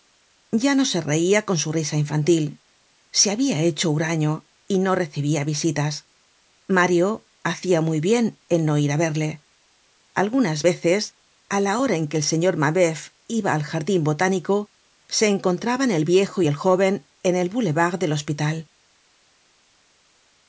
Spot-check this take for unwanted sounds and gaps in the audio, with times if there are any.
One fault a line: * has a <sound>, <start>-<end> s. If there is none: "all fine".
all fine